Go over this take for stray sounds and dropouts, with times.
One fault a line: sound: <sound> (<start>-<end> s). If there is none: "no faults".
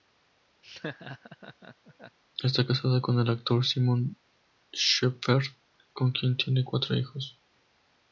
sound: laugh (0.6-2.2 s)